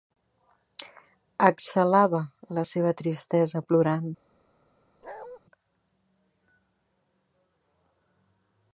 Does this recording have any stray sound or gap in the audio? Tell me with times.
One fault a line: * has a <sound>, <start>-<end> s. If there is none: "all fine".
* has a bark, 5.0-5.4 s